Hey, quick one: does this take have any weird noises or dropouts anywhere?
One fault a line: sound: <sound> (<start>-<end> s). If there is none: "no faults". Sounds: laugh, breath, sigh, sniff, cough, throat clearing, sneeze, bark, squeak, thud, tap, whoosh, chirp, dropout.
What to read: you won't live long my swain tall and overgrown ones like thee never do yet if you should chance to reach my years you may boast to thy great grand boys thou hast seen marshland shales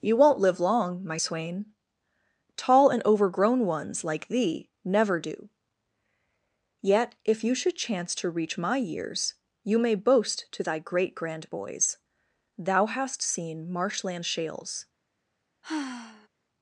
sound: sigh (15.6-16.3 s)